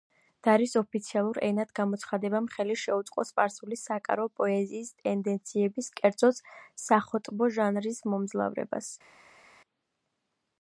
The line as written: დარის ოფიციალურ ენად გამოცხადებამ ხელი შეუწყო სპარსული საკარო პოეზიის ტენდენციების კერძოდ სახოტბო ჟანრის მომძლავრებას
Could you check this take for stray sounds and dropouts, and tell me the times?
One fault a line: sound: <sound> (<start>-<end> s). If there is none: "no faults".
no faults